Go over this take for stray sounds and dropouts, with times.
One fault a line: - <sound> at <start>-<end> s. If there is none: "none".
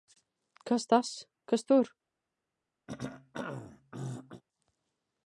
- throat clearing at 2.9-4.4 s